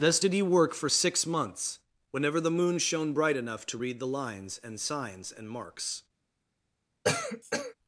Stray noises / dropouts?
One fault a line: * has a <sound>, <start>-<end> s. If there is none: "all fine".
* has a cough, 7.0-7.7 s